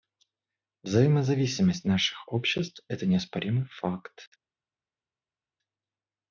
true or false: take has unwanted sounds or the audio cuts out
false